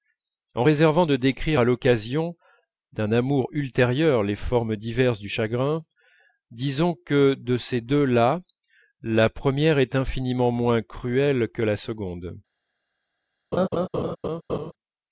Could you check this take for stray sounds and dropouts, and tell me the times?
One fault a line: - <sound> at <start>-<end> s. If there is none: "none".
- laugh at 13.5-14.7 s